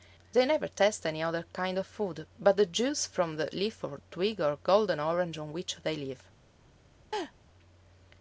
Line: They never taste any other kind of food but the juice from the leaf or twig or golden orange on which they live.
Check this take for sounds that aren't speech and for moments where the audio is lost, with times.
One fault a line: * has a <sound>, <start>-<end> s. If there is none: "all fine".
* has a laugh, 7.1-7.3 s